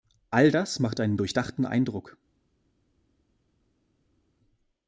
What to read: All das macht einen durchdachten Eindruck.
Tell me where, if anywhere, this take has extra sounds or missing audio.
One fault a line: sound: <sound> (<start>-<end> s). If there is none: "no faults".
no faults